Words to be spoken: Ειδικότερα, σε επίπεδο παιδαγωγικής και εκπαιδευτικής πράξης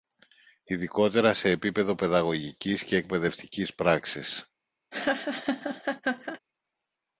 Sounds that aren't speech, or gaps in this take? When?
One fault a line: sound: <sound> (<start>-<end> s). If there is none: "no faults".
sound: laugh (4.9-6.4 s)